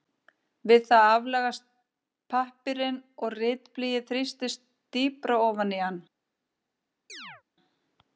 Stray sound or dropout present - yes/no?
yes